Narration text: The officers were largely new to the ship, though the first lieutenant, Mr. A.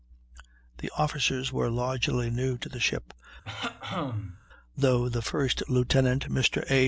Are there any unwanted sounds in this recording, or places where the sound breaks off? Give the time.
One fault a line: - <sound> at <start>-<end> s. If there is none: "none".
- throat clearing at 3.4-4.4 s